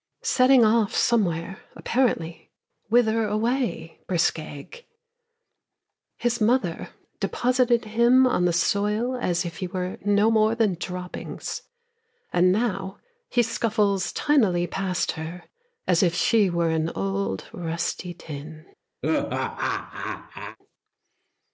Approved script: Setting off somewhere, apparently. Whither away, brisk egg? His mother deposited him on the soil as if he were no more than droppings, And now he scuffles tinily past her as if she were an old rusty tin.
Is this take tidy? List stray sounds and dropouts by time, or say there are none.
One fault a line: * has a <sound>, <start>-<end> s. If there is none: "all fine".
* has a laugh, 19.0-20.6 s